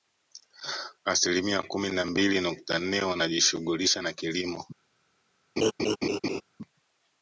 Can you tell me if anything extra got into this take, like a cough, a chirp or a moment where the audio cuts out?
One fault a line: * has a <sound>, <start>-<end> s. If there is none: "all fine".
* has a laugh, 5.6-6.4 s